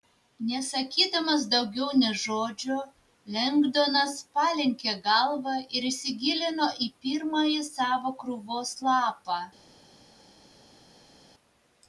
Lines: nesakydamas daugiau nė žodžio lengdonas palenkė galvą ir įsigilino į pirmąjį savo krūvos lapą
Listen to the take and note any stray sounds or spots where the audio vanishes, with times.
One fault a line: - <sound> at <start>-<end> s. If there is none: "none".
none